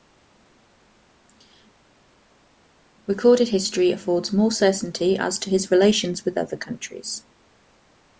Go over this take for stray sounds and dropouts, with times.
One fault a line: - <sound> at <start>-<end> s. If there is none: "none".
none